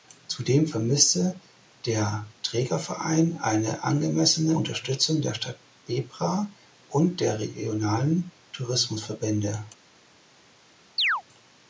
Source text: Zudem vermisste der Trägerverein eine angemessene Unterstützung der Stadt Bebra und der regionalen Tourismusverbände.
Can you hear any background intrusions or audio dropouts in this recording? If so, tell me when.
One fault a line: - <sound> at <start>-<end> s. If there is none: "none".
- chirp at 11.0-11.2 s